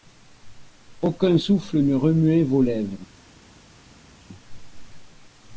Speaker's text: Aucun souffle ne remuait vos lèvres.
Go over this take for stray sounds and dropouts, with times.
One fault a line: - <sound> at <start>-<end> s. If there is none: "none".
none